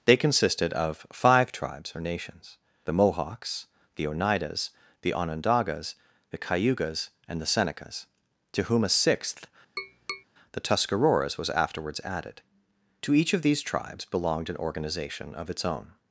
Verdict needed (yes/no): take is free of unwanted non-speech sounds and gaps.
no